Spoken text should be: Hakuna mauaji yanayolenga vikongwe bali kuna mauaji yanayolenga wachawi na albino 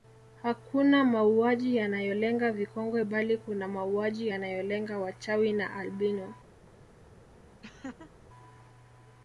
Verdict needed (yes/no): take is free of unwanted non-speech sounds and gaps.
no